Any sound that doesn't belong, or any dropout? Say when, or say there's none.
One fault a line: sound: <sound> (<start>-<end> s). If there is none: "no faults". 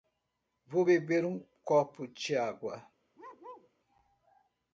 sound: bark (3.2-3.7 s)